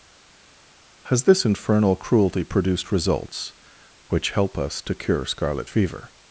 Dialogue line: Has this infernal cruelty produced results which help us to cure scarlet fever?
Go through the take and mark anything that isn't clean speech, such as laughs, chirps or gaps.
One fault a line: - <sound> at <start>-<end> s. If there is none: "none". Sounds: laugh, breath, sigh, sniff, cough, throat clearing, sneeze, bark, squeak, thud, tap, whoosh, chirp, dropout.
none